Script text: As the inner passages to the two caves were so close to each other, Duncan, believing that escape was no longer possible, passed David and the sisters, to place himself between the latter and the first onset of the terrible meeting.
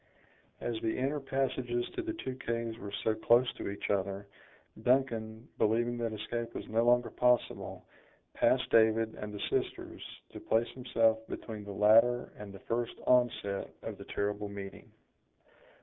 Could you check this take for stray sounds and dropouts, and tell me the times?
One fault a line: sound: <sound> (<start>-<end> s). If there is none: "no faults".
no faults